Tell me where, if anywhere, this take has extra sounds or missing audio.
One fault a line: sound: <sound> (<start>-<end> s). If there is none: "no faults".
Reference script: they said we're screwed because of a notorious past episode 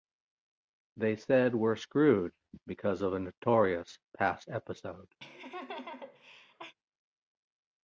sound: laugh (5.2-6.7 s)